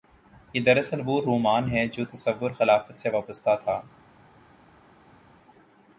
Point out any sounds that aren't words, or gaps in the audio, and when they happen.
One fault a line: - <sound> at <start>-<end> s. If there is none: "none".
none